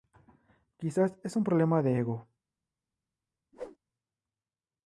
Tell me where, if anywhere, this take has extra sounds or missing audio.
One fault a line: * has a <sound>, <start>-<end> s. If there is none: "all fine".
* has a whoosh, 3.5-3.8 s